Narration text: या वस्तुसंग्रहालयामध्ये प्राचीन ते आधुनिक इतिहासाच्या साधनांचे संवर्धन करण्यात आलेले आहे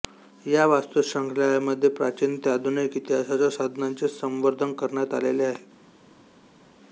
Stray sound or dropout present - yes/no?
no